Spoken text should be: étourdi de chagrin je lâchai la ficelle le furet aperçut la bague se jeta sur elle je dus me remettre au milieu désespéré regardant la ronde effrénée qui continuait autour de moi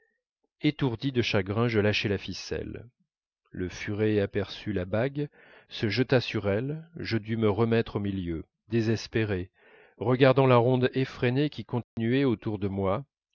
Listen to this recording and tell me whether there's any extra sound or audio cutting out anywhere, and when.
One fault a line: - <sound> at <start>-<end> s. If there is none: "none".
- dropout at 11.8-12.0 s